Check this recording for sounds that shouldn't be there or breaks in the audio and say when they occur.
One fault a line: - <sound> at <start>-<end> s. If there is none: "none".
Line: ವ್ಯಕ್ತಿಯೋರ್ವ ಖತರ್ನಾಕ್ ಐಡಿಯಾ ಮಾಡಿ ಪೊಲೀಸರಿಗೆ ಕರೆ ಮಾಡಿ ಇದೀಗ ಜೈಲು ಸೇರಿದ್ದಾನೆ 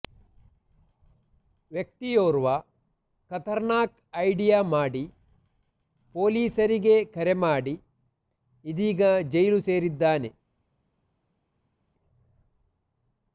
none